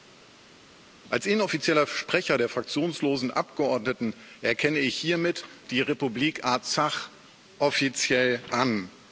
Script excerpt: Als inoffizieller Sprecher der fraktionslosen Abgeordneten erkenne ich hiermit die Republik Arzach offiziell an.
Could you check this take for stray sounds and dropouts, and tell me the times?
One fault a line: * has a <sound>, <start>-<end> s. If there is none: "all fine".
all fine